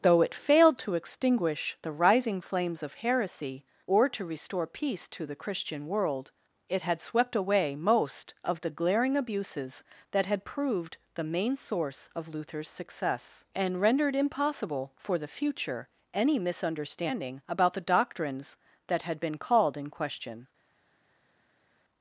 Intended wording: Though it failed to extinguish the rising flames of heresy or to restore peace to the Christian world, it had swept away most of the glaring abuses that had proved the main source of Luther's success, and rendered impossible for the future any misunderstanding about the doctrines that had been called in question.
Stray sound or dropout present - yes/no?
no